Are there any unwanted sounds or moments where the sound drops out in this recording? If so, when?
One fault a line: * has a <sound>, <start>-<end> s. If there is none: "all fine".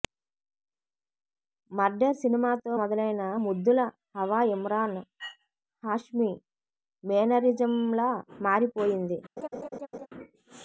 * has a laugh, 9.4-10.1 s